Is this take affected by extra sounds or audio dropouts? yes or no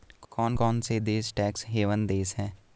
no